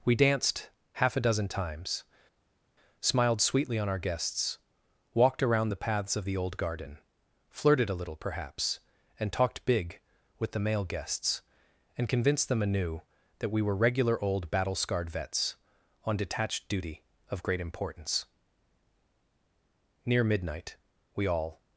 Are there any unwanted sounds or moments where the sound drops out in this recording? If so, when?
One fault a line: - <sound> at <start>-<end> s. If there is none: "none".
none